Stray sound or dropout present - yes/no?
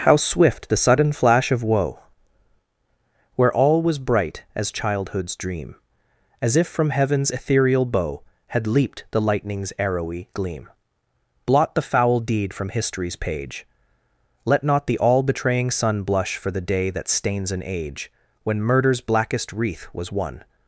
no